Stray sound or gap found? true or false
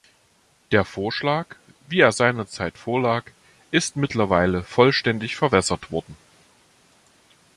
false